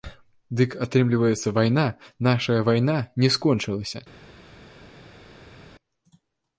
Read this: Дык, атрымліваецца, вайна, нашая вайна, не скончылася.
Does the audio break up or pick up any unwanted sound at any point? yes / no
no